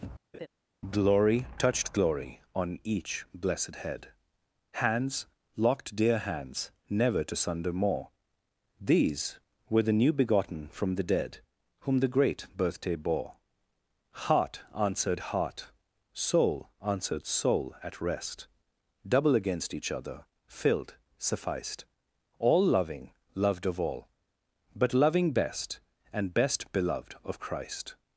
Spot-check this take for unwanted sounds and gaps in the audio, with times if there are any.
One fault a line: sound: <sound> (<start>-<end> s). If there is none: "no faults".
sound: laugh (0.3-0.5 s)